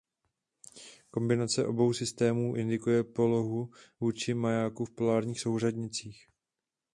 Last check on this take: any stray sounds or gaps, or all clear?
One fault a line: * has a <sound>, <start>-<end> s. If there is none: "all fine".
all fine